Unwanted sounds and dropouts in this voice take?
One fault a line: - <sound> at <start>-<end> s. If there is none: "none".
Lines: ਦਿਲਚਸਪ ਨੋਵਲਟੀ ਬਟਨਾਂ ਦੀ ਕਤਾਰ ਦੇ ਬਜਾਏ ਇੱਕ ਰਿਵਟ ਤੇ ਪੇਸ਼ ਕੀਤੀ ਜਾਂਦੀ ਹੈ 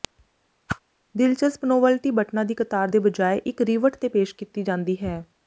- whoosh at 0.7-0.8 s